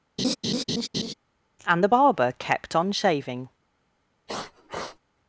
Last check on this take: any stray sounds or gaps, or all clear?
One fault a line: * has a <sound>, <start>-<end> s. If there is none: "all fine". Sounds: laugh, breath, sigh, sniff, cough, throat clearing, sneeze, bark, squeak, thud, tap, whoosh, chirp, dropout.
* has a laugh, 0.2-1.1 s
* has a sniff, 4.3-5.0 s